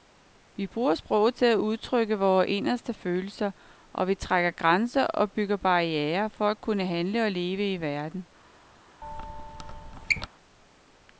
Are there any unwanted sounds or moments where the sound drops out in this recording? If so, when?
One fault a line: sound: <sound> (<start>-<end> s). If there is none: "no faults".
sound: squeak (9.0-10.3 s)